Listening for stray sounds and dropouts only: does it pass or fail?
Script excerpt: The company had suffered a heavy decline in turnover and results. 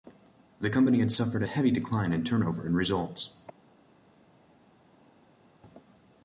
pass